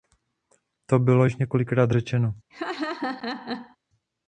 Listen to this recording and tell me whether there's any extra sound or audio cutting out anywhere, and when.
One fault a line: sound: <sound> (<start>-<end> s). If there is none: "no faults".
sound: laugh (2.5-3.8 s)